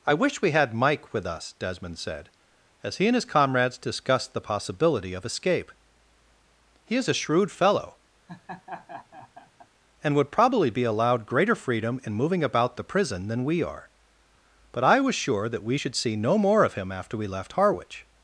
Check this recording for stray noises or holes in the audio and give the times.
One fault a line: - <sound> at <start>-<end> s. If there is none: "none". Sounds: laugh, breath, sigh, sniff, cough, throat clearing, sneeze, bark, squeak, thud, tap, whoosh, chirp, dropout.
- laugh at 8.3-9.7 s